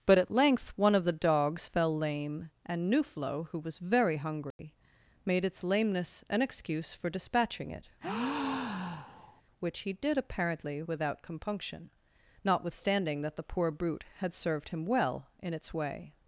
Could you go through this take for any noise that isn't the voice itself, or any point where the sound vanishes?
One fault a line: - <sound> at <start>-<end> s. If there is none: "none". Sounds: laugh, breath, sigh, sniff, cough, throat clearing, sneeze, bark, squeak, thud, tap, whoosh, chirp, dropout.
- dropout at 4.5-4.6 s
- breath at 8.0-9.4 s